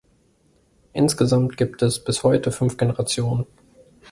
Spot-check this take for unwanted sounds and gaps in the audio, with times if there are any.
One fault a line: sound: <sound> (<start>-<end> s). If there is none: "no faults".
no faults